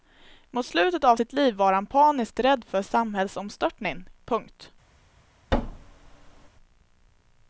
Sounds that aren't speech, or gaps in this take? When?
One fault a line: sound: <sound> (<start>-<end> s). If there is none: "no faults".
sound: thud (5.5-6.5 s)